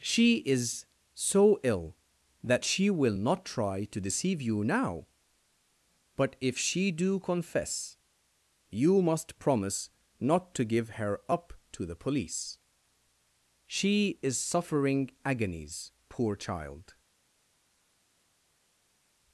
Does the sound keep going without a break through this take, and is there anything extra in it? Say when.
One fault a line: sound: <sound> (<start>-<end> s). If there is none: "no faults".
no faults